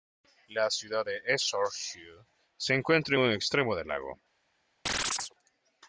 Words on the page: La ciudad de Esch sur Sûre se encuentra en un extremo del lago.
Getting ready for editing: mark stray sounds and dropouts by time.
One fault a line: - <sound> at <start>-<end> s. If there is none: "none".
- chirp at 4.9-5.3 s